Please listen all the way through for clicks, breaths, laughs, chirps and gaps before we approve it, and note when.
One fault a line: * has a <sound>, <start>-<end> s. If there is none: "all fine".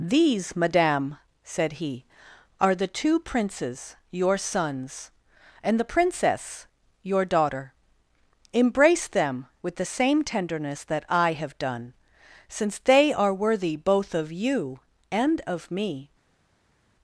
all fine